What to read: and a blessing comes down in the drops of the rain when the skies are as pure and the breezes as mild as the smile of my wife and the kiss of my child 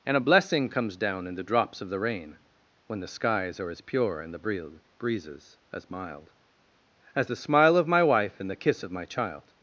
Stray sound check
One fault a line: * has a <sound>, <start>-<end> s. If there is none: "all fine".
all fine